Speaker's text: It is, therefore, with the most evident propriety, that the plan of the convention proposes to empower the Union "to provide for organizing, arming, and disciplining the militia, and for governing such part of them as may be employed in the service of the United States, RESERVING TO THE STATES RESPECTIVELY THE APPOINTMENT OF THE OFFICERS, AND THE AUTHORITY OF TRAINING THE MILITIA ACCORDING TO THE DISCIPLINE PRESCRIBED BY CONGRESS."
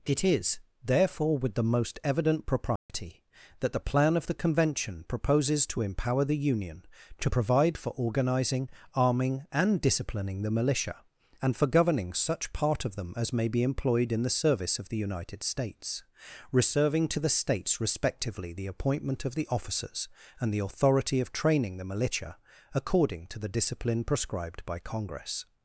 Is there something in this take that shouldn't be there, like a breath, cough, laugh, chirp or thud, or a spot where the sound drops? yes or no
yes